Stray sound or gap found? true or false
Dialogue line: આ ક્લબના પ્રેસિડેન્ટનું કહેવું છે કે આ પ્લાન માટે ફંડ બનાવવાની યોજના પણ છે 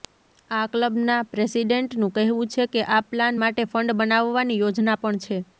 false